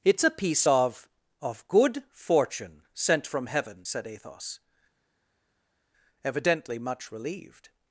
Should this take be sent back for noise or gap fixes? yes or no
no